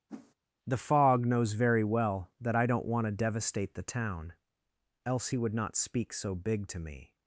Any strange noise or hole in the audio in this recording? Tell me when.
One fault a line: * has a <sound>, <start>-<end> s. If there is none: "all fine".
* has a whoosh, 0.1-0.3 s